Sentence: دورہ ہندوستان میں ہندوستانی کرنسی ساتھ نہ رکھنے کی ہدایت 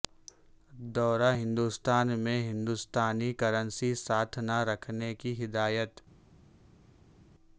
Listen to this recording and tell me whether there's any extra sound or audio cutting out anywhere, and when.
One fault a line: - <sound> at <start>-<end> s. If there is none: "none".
none